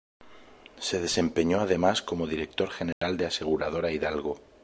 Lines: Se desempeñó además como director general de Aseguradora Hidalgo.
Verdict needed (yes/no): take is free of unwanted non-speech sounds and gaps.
no